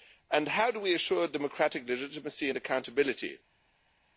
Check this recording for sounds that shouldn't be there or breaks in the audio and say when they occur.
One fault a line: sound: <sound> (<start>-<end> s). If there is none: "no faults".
no faults